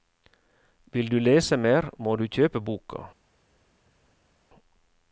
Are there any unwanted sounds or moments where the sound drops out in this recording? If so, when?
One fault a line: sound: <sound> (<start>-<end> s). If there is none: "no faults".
no faults